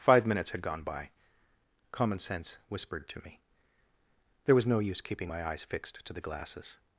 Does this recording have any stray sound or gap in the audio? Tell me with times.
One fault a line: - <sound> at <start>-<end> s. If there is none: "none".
none